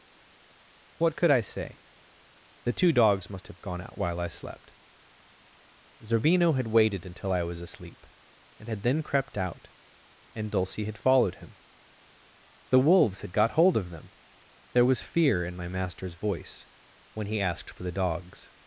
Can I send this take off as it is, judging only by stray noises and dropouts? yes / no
yes